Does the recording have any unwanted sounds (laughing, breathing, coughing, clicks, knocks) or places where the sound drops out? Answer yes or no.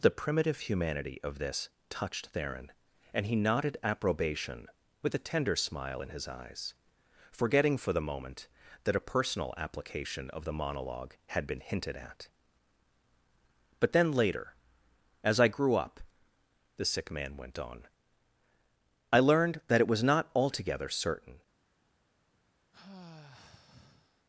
yes